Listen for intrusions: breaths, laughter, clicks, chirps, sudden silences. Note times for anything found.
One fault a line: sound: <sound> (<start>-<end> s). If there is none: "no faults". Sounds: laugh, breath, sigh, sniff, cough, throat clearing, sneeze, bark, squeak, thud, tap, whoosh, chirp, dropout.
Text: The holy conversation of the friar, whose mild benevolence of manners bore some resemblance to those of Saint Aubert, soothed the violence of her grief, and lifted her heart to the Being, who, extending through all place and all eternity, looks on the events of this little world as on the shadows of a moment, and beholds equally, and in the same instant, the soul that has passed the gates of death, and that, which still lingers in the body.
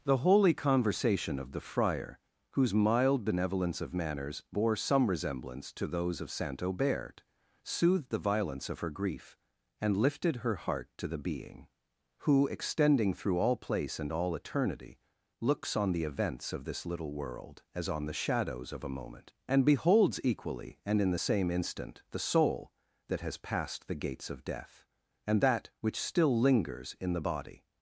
no faults